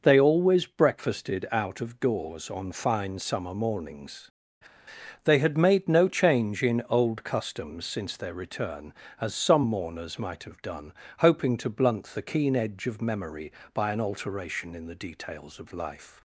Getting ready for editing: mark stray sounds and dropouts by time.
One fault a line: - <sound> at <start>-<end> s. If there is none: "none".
none